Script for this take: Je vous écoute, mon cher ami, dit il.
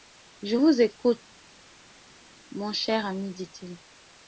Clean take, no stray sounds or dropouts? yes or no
yes